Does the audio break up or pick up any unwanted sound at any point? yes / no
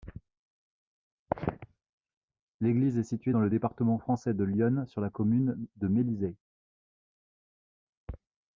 no